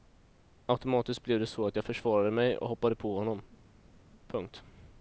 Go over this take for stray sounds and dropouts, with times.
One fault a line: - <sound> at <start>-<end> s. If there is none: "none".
none